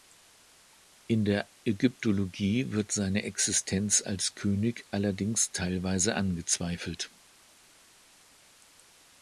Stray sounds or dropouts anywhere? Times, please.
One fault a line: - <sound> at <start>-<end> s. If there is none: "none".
none